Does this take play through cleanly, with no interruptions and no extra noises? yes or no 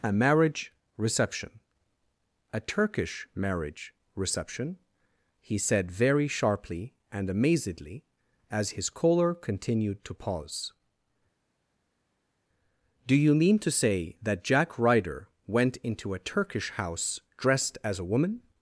yes